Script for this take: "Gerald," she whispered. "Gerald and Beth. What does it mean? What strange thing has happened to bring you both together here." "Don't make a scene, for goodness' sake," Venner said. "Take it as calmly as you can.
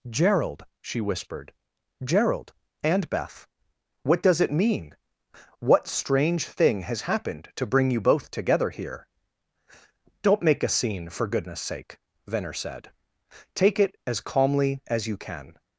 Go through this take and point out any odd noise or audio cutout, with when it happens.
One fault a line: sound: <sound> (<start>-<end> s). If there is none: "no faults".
no faults